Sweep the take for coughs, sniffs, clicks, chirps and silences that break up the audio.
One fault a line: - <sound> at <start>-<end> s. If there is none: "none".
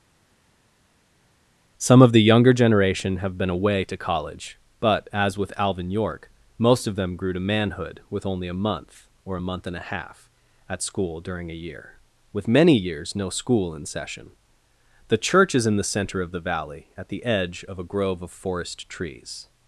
none